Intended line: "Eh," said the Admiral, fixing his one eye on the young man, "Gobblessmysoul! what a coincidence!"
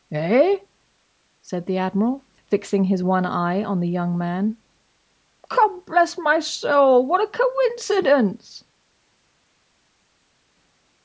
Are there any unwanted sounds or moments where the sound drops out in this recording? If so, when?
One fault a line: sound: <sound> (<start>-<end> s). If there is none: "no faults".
no faults